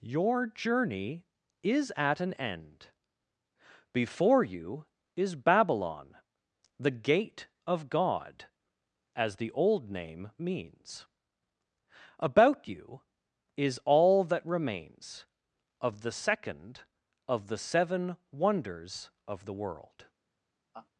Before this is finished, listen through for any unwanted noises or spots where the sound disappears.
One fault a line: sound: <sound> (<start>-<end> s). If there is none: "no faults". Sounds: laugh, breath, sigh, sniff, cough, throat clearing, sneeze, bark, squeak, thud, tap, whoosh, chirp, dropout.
sound: laugh (20.7-20.9 s)